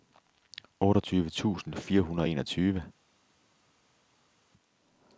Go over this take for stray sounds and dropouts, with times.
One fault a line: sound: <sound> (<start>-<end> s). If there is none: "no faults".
no faults